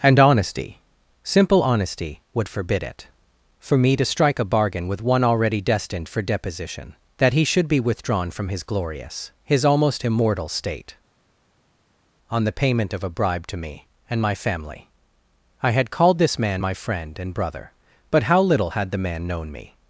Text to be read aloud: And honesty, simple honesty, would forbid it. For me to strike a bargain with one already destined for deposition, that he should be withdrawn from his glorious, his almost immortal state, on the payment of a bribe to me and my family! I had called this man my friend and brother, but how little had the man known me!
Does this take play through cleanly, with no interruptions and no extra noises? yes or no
yes